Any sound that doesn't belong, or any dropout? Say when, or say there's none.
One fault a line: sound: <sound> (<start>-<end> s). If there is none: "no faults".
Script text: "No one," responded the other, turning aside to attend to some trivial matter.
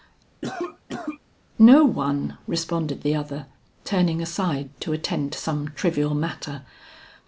sound: cough (0.4-1.2 s)